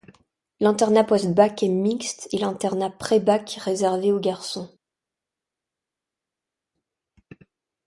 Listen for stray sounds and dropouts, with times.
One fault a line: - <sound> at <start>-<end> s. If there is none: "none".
none